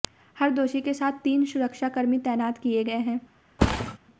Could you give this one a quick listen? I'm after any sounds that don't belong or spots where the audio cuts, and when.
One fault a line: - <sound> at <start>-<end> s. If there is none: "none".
- thud at 3.6-4.0 s